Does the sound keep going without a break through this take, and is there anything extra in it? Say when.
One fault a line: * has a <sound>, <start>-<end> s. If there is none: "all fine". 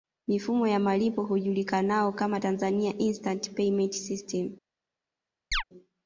* has a chirp, 5.5-5.6 s